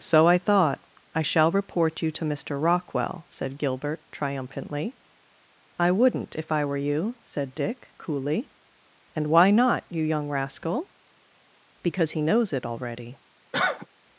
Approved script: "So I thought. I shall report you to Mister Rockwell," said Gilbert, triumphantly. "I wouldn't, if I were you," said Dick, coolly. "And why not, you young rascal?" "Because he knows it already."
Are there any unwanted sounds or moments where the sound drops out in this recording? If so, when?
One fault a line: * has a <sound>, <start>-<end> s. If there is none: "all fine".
* has a cough, 13.5-13.9 s